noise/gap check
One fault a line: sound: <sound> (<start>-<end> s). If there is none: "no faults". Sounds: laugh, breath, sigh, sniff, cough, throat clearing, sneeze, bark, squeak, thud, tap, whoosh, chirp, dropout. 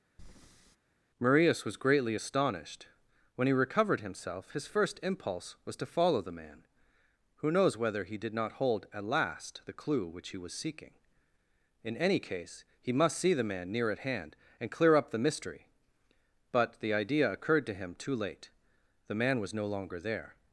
sound: breath (0.2-0.8 s)